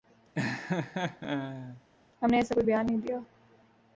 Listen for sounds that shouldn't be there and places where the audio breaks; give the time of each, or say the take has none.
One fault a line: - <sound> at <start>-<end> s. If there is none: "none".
- laugh at 0.3-1.8 s